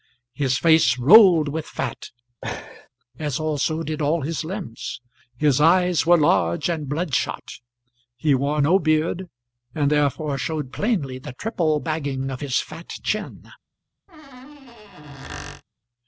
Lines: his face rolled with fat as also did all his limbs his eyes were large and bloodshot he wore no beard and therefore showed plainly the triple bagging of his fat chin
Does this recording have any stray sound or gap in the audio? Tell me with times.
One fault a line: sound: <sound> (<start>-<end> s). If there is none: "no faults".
sound: laugh (2.4-2.9 s)
sound: squeak (14.1-15.6 s)